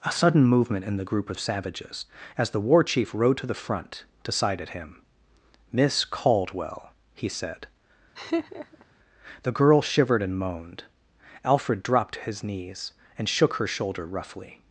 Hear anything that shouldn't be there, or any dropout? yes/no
yes